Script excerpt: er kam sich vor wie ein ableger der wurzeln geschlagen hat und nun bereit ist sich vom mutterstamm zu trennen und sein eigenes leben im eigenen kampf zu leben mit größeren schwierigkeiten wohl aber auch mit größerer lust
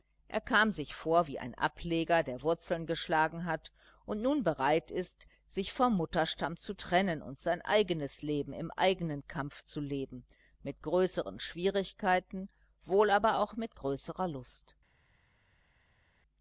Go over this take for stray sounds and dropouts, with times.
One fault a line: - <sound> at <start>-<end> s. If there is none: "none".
none